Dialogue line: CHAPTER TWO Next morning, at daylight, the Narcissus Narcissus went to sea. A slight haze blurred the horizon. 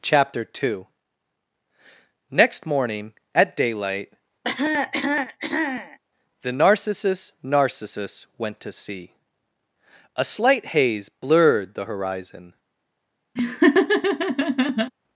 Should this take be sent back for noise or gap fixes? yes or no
yes